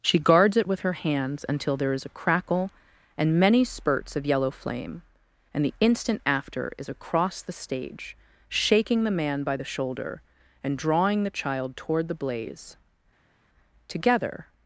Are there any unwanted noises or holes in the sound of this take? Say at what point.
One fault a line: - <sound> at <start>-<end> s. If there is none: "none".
none